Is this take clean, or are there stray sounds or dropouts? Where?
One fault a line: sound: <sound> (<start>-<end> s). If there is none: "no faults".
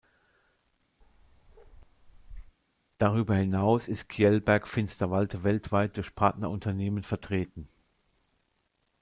sound: bark (1.0-2.6 s)